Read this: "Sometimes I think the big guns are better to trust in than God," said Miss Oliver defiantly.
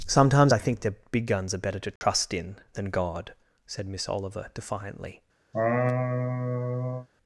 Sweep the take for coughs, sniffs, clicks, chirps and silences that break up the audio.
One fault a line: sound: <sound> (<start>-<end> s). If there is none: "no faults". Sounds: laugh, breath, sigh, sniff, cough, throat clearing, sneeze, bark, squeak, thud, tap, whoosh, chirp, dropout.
sound: dropout (2.0-2.0 s)
sound: laugh (5.5-7.1 s)